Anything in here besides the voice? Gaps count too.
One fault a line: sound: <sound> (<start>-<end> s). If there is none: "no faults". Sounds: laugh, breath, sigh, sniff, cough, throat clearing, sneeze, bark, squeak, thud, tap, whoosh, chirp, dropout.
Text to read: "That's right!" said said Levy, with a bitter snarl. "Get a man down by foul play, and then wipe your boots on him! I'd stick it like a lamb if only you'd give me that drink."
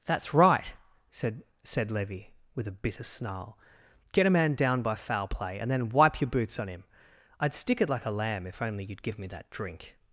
no faults